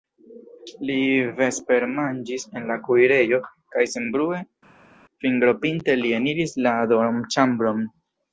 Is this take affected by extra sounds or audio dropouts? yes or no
no